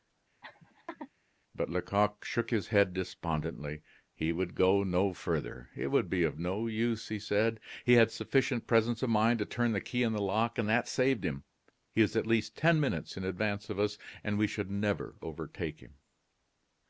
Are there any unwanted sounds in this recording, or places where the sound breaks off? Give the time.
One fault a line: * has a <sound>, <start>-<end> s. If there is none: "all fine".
* has a laugh, 0.4-1.1 s